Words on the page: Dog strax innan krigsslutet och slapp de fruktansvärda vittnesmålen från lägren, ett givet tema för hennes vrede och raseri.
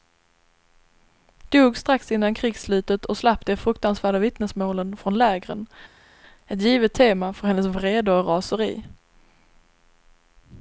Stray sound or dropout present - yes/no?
no